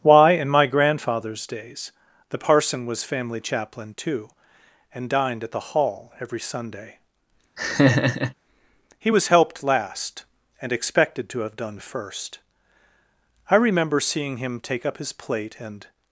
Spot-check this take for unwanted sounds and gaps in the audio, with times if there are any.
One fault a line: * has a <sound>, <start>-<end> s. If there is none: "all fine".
* has a laugh, 7.6-8.3 s